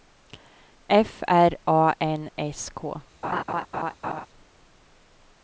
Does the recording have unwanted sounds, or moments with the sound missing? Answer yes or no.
yes